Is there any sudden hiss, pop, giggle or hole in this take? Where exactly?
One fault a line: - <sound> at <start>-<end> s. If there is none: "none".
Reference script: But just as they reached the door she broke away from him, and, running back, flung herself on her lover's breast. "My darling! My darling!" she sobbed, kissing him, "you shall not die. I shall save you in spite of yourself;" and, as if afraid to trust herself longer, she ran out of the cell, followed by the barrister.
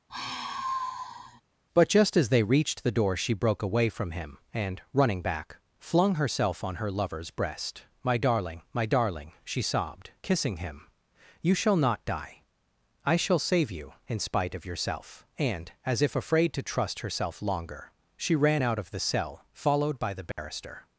- sigh at 0.1-1.4 s
- dropout at 20.3-20.4 s